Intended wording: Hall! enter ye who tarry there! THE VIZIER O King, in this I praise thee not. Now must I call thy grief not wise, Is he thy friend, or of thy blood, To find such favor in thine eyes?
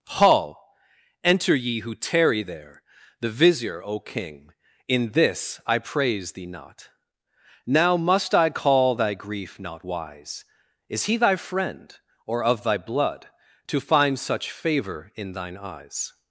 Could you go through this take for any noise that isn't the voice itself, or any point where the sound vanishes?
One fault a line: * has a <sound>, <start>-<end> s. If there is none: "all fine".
all fine